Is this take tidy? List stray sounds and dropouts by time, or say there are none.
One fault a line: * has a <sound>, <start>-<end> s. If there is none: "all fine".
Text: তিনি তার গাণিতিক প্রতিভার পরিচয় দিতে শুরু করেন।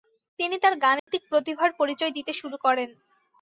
* has a dropout, 1.0-1.1 s